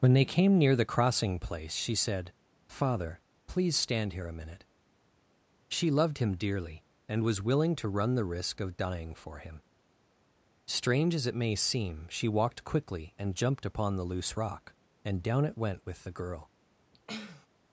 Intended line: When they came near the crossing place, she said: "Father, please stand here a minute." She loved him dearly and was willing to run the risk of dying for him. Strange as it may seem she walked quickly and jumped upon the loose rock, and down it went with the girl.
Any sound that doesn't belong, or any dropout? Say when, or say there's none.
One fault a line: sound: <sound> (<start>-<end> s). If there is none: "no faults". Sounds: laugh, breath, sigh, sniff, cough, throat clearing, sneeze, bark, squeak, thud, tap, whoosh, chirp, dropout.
sound: sniff (16.9-17.5 s)